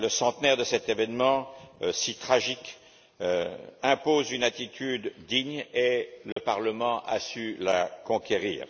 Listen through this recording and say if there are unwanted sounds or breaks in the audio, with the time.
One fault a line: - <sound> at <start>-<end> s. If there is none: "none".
- dropout at 6.3-6.4 s